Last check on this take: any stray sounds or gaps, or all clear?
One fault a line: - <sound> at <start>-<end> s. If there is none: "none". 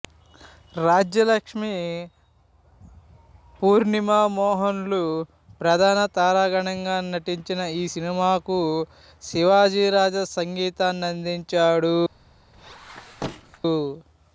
- squeak at 12.5-13.6 s